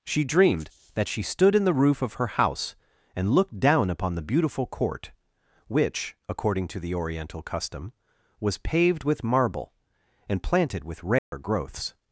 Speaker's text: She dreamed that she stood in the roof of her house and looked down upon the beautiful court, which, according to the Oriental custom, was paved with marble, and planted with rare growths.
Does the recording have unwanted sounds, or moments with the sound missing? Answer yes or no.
yes